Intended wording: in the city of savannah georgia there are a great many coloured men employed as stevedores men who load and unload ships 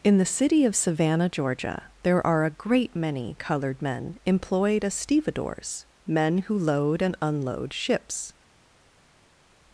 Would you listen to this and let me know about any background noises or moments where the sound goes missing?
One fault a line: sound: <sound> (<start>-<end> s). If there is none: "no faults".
no faults